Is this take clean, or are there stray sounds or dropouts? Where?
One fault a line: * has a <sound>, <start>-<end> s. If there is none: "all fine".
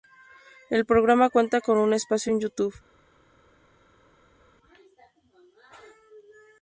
all fine